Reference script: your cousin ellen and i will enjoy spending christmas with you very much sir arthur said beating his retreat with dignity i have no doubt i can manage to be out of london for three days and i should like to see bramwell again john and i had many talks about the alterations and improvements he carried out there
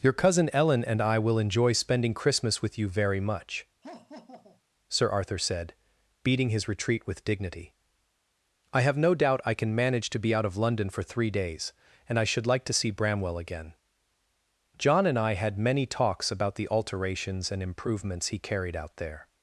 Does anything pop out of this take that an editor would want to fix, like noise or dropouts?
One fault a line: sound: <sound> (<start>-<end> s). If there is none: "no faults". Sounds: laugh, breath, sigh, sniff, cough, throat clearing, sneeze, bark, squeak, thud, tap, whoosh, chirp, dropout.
sound: laugh (3.8-4.6 s)